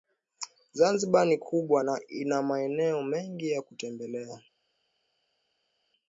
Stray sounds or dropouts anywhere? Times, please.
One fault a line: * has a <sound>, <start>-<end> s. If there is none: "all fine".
all fine